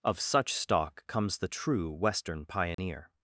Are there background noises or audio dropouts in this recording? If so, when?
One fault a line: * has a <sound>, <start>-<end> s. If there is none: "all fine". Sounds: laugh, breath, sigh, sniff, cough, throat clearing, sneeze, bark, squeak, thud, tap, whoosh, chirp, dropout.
* has a dropout, 2.7-2.8 s